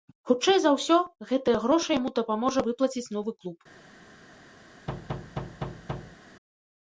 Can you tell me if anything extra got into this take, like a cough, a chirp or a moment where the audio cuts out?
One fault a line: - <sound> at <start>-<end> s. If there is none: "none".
- thud at 4.9-6.2 s